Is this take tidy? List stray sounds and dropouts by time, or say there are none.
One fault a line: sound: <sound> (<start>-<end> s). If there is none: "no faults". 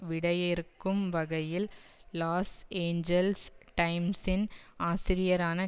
no faults